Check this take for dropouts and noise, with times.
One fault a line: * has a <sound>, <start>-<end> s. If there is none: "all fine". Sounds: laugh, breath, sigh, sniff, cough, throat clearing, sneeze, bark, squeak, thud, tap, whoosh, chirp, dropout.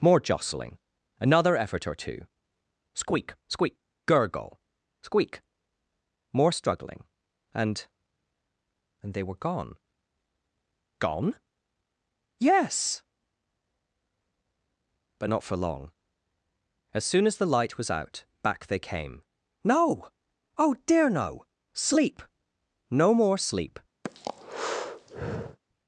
* has a breath, 24.0-25.6 s